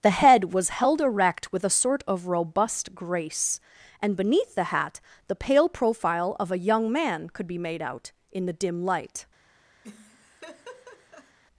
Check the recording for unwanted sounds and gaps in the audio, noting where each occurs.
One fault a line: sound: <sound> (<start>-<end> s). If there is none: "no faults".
sound: laugh (9.8-11.4 s)